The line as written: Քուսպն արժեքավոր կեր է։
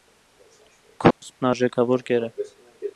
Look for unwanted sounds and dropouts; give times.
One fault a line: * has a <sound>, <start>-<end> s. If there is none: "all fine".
* has a dropout, 1.1-1.2 s